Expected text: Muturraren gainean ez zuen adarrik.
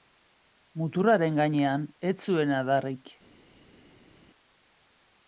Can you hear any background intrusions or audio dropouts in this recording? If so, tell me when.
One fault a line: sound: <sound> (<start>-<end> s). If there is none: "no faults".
no faults